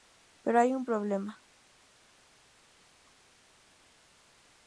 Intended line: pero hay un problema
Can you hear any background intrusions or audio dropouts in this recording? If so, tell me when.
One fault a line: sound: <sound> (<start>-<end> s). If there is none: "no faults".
no faults